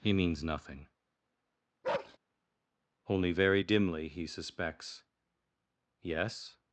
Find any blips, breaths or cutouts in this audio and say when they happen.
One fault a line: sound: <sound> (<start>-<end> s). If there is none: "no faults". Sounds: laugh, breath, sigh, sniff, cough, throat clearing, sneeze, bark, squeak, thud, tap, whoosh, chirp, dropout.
sound: bark (1.8-2.2 s)